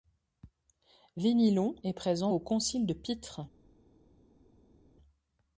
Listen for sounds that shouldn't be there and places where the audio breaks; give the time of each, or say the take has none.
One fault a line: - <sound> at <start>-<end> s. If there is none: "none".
none